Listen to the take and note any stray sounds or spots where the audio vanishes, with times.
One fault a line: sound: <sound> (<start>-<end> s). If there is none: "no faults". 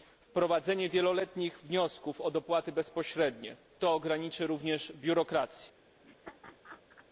sound: laugh (6.0-7.1 s)